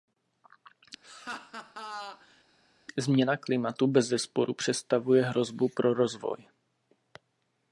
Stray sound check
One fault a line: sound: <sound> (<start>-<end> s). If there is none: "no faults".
sound: laugh (1.0-2.4 s)